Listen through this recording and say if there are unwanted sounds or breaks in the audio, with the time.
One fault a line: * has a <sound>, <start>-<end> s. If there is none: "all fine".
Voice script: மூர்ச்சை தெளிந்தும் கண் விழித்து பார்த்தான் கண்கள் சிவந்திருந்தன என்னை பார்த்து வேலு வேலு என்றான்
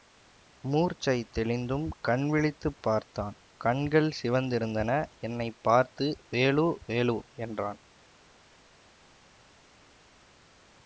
all fine